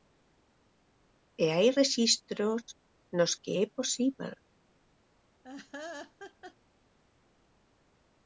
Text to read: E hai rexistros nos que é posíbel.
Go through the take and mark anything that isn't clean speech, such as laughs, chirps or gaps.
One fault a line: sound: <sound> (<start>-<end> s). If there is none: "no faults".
sound: laugh (5.4-6.5 s)